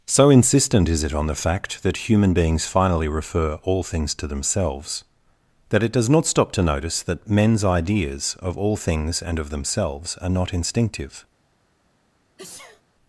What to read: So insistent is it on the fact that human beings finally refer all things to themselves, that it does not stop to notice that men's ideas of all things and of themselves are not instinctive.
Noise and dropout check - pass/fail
fail